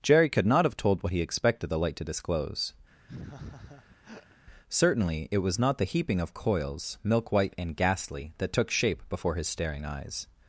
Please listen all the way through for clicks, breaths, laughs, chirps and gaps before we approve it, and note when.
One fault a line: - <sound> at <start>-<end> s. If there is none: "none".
- laugh at 3.1-4.4 s